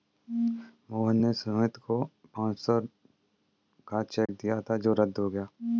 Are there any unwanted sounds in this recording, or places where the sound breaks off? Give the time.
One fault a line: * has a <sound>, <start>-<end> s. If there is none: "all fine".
* has a dropout, 4.3-4.3 s